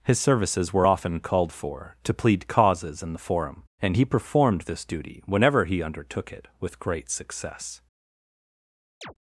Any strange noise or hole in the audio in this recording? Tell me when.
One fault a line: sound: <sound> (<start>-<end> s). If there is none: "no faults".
sound: chirp (9.0-9.1 s)